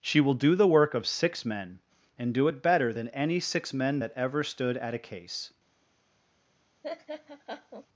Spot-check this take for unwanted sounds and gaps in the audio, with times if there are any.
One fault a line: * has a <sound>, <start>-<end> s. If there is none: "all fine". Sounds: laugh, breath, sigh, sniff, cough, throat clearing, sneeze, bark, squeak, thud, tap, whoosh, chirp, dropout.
* has a laugh, 6.8-7.9 s